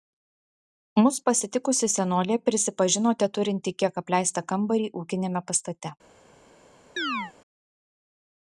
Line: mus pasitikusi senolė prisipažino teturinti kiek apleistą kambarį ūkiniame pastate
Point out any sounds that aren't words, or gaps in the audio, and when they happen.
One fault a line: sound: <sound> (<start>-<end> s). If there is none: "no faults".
sound: chirp (7.0-7.3 s)